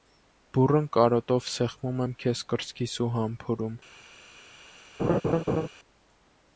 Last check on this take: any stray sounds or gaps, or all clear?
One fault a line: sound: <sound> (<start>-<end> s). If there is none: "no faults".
sound: laugh (5.0-5.7 s)